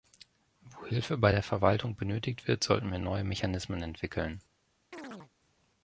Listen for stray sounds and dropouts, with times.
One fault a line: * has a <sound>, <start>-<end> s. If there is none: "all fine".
* has a chirp, 4.9-5.3 s